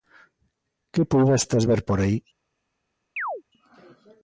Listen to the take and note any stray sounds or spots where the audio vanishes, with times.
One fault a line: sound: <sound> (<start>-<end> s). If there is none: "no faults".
sound: chirp (3.2-3.4 s)